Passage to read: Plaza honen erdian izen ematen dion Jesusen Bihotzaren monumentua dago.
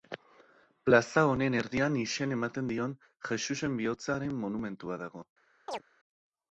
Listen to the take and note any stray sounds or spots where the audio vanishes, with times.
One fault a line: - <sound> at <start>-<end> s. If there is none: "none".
- chirp at 5.7-5.8 s